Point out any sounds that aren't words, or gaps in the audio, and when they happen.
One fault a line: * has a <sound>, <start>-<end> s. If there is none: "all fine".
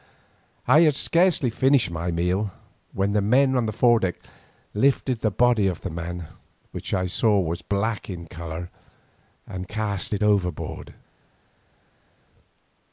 all fine